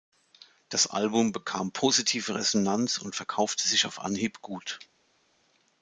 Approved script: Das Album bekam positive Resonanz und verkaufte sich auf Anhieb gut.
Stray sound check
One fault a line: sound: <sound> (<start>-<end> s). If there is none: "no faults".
no faults